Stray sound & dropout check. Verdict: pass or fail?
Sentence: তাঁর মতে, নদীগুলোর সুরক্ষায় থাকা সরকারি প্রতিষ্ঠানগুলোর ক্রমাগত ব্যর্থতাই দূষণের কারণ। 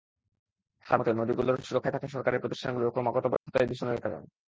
fail